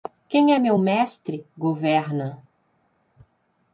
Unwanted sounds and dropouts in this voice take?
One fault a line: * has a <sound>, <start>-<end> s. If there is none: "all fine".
all fine